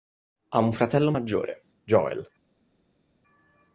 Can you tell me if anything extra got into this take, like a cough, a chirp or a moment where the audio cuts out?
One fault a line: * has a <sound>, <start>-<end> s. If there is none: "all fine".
all fine